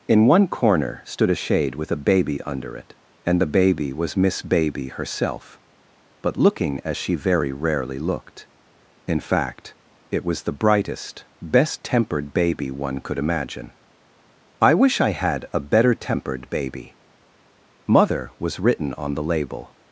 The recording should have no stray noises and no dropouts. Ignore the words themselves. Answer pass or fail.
pass